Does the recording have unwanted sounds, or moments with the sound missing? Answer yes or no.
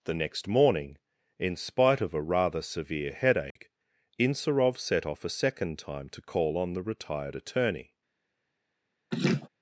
yes